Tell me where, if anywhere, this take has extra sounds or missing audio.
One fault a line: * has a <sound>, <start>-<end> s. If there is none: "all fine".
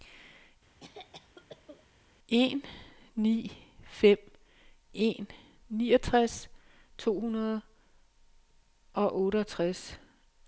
* has a cough, 0.8-1.9 s